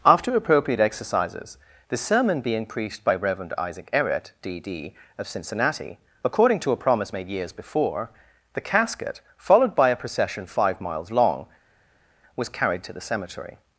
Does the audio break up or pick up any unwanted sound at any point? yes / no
no